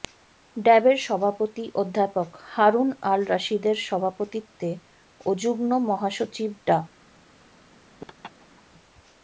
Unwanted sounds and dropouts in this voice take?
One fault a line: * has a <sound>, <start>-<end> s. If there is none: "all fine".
* has a laugh, 8.0-8.6 s